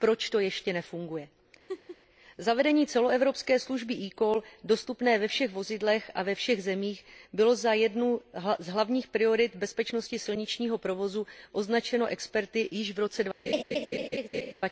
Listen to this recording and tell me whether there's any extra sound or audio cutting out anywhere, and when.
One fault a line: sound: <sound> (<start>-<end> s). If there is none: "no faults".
sound: laugh (1.7-2.0 s)
sound: laugh (13.5-14.5 s)